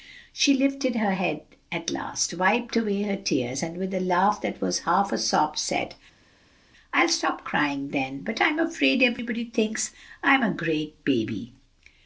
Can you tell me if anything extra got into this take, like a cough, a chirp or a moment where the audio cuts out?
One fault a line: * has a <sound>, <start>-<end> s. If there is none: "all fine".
all fine